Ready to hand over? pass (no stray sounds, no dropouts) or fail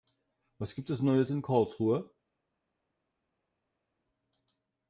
pass